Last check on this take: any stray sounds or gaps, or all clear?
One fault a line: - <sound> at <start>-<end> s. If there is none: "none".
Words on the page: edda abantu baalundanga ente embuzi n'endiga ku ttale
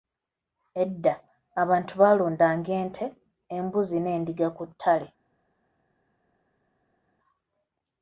none